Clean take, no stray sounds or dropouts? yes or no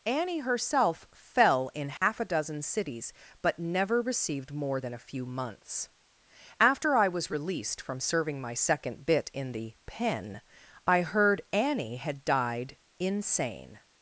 no